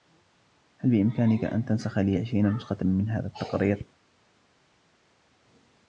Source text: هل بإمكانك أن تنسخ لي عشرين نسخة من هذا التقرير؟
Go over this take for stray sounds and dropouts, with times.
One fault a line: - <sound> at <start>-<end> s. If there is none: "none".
none